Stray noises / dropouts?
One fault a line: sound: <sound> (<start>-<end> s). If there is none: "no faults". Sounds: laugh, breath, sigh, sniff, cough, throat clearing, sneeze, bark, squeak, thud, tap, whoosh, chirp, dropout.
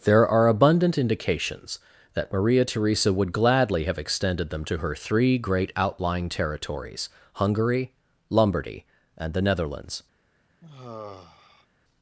sound: sigh (10.6-11.7 s)